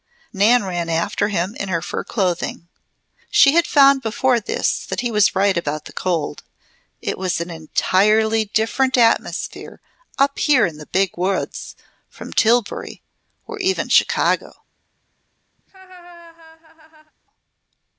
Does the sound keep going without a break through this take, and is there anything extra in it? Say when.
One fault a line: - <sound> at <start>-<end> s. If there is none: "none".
- laugh at 15.6-17.1 s